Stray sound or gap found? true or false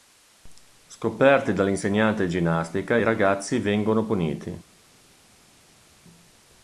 false